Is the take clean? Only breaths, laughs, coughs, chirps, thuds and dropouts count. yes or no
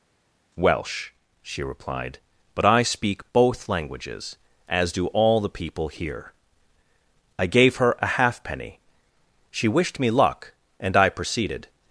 yes